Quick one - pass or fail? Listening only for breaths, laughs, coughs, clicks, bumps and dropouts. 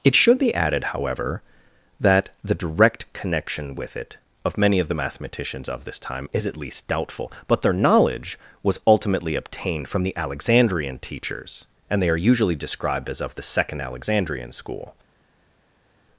pass